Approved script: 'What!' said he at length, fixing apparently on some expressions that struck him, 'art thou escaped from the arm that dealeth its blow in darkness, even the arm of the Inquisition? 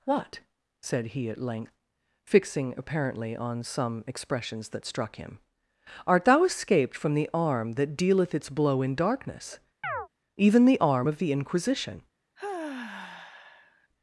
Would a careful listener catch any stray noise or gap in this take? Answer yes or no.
yes